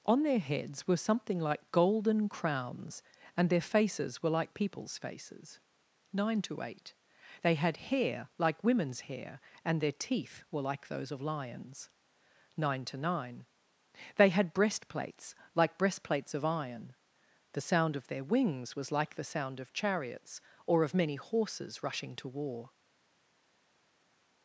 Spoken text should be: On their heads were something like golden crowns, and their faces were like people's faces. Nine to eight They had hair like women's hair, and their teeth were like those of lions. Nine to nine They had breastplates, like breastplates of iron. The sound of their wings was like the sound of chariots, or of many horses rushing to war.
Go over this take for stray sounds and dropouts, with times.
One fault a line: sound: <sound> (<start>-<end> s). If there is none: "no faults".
no faults